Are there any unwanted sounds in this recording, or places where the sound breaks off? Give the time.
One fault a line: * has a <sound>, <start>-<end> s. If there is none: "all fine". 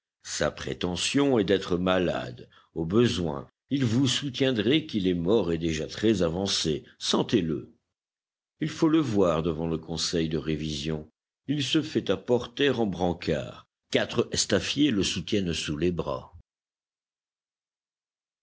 all fine